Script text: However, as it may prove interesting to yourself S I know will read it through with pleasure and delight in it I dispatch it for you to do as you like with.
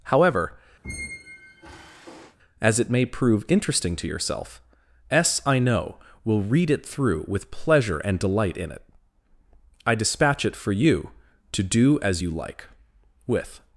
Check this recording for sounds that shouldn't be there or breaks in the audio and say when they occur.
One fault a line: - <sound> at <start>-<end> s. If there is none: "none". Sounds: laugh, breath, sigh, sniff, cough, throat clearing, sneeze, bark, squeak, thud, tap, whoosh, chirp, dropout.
- squeak at 0.8-2.4 s